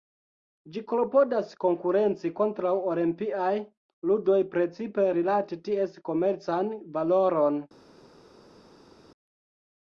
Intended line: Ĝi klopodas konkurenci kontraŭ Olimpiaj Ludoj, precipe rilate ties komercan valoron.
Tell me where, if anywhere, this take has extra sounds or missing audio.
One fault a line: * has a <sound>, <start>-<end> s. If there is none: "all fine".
all fine